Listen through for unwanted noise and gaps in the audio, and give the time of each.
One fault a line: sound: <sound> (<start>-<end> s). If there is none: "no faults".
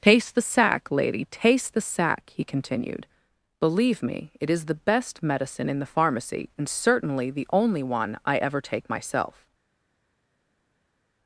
no faults